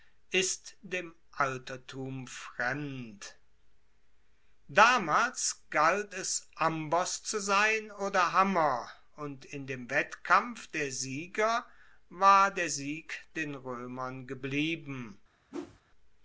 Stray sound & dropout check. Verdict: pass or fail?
fail